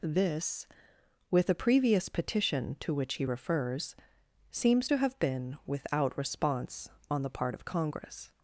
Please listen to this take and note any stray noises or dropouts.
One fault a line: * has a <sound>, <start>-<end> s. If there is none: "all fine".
all fine